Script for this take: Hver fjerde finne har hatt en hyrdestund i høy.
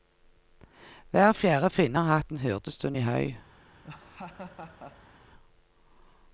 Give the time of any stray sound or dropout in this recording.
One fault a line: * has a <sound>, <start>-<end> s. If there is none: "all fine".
* has a laugh, 3.8-5.2 s